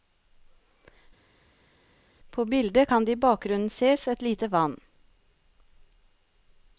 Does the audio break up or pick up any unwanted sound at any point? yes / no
no